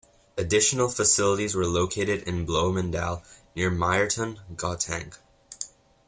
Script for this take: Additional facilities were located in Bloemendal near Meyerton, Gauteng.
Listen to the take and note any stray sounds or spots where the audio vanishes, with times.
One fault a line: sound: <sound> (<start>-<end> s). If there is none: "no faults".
no faults